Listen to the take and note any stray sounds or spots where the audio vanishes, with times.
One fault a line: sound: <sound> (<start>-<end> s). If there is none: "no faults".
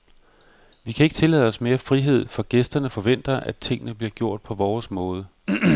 no faults